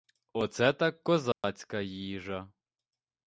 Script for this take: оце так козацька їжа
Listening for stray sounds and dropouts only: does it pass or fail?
fail